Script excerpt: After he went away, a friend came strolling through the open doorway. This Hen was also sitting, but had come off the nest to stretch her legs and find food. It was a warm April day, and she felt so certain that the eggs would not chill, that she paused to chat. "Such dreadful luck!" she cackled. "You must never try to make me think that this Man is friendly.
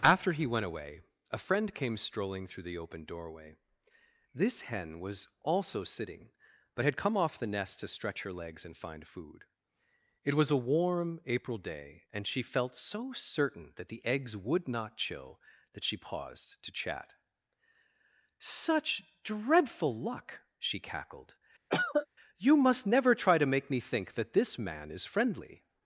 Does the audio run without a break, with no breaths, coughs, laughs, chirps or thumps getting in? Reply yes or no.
no